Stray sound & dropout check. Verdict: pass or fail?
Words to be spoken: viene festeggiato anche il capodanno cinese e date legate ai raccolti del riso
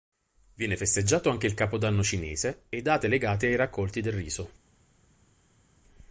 pass